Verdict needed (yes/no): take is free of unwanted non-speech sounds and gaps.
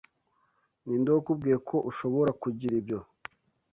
yes